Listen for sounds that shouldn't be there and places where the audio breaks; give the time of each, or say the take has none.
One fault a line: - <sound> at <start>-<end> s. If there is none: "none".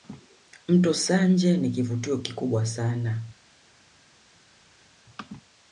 none